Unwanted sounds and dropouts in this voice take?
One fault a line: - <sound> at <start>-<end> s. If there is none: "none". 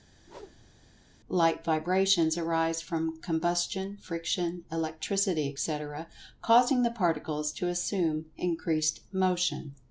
- whoosh at 0.2-0.9 s